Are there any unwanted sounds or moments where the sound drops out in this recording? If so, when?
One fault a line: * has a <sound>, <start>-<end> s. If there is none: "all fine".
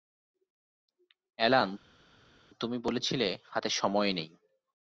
all fine